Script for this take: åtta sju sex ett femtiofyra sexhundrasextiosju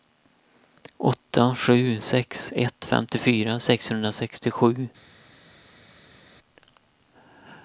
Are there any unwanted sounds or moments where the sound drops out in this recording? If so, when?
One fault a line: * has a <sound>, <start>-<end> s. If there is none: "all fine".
all fine